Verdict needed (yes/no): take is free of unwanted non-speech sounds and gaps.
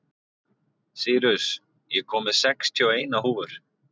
yes